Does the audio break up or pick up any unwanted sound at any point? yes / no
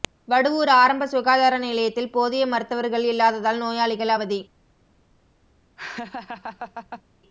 yes